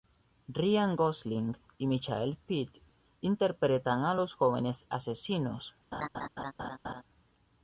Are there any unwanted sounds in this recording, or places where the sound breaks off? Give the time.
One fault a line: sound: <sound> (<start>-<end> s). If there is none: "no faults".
sound: laugh (5.9-7.0 s)